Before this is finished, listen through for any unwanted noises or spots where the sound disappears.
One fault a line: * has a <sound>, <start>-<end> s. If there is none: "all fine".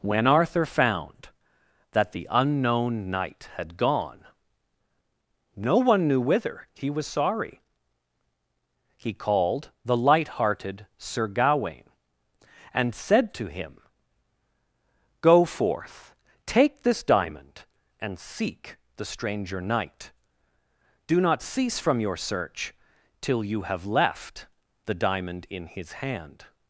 all fine